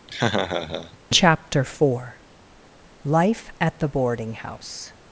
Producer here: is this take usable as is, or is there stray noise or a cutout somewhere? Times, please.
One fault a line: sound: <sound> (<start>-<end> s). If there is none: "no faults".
sound: laugh (0.1-1.0 s)